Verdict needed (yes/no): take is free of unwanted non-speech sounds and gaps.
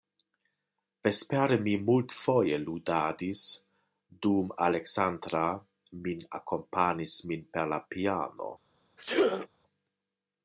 no